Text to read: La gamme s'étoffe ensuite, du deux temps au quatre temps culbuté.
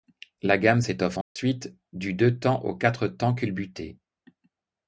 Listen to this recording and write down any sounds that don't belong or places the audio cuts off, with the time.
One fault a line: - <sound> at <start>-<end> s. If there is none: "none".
- dropout at 1.2-1.4 s